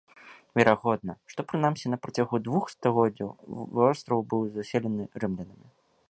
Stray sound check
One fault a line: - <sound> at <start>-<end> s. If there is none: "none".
none